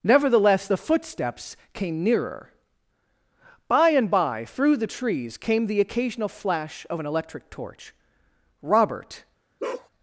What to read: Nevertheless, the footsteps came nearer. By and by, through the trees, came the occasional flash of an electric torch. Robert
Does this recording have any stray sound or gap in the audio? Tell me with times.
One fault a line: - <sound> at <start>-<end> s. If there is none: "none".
- bark at 9.6-9.9 s